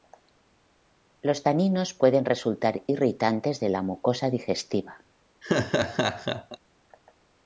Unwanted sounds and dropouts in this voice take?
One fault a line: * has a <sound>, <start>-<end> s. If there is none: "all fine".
* has a laugh, 5.4-6.6 s